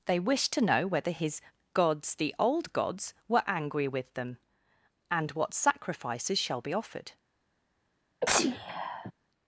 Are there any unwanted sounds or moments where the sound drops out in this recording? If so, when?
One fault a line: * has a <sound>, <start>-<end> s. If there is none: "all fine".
* has a sneeze, 8.2-9.1 s